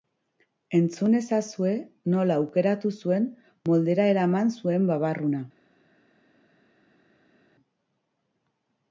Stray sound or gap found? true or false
false